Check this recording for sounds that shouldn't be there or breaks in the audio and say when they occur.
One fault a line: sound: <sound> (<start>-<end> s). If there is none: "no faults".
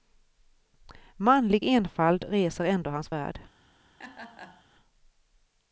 sound: laugh (4.0-4.7 s)